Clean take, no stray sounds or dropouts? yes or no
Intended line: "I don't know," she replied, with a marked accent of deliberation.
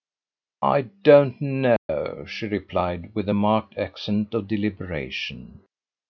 no